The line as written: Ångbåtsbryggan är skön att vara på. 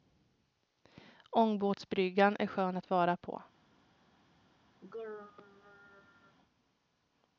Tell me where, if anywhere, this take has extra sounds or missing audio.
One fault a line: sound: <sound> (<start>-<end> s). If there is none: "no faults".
sound: throat clearing (4.8-6.4 s)